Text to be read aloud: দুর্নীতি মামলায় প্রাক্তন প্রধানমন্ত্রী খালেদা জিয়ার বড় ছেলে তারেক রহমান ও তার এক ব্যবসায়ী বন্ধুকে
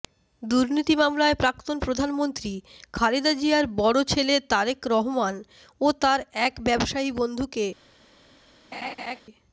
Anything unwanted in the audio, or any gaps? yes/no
yes